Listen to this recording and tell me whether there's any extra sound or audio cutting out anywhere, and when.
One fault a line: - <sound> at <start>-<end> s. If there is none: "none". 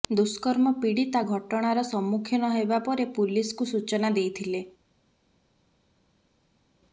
none